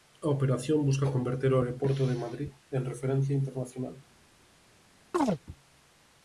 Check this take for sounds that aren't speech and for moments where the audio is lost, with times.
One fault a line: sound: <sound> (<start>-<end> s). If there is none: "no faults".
sound: chirp (5.1-5.4 s)